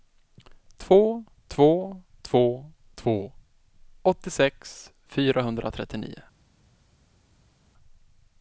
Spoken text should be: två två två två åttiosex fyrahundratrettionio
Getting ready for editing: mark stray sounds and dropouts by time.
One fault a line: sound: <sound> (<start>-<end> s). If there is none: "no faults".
no faults